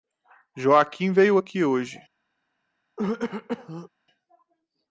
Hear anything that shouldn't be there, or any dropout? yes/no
yes